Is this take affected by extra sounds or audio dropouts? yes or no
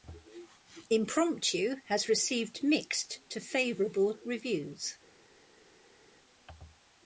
no